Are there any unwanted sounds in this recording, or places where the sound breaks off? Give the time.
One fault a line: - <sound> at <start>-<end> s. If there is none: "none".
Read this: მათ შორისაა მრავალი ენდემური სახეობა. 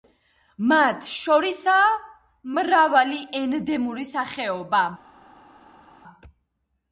none